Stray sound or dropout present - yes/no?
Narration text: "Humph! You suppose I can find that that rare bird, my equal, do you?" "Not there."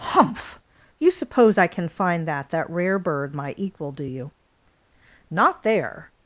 no